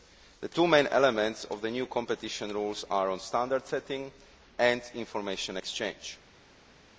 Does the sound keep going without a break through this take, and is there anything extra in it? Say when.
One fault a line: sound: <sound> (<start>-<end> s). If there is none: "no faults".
no faults